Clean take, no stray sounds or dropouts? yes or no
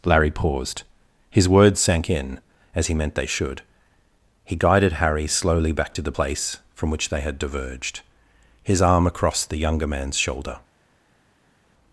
yes